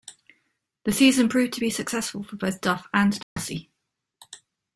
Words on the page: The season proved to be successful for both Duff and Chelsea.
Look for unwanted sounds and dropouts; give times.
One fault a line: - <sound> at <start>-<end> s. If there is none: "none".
- dropout at 3.2-3.4 s